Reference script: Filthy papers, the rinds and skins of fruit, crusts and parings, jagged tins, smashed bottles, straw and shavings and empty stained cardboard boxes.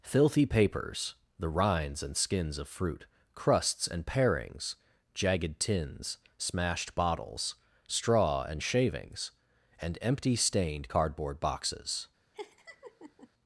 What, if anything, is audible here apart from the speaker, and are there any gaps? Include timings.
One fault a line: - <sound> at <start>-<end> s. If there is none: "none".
- laugh at 12.3-13.3 s